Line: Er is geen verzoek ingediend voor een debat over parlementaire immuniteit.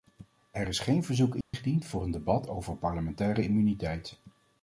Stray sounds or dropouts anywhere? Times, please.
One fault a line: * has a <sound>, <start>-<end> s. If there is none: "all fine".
* has a dropout, 1.4-1.5 s